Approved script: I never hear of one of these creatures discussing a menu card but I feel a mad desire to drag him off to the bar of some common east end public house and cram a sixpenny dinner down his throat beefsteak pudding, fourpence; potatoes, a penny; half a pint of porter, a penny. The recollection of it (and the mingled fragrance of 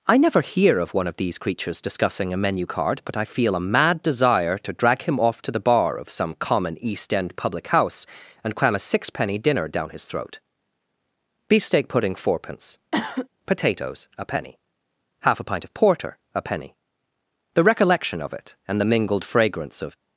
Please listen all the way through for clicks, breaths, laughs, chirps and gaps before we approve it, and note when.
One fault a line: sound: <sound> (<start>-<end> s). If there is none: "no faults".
sound: cough (12.9-13.3 s)